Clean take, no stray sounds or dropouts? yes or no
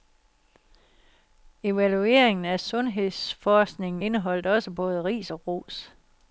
yes